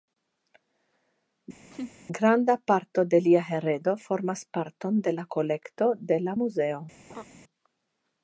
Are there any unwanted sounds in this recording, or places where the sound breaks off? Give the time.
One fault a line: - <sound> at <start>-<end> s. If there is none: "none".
- laugh at 1.7-1.9 s
- laugh at 7.1-7.3 s